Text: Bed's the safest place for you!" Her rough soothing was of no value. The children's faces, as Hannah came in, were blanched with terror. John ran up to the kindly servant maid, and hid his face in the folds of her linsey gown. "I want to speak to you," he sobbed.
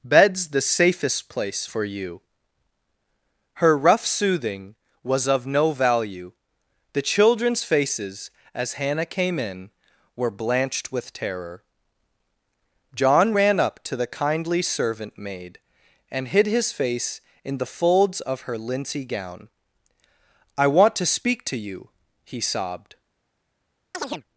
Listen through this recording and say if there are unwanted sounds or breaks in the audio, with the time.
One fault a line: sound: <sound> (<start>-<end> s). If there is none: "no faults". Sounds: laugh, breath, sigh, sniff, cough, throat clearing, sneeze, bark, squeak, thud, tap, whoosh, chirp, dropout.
sound: chirp (23.9-24.2 s)